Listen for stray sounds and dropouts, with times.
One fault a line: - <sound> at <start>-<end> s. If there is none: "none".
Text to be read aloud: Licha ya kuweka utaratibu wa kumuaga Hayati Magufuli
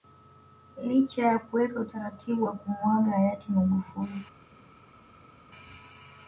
none